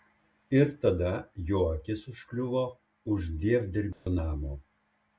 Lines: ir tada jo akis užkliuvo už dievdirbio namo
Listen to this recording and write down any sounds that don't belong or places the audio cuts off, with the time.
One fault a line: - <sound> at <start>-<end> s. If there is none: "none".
- dropout at 3.9-4.1 s